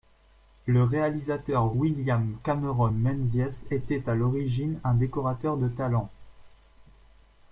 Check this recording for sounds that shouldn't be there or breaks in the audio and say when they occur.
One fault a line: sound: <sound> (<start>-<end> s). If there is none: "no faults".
no faults